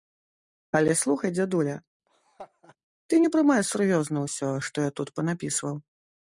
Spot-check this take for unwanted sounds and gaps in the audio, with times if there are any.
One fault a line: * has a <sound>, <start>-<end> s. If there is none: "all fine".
* has a laugh, 2.1-2.8 s